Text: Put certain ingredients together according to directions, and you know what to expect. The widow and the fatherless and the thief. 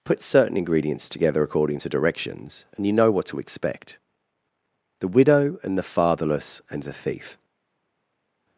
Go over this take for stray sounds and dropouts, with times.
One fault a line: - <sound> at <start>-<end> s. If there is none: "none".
none